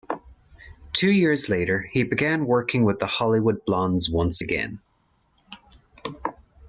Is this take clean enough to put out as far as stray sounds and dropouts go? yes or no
yes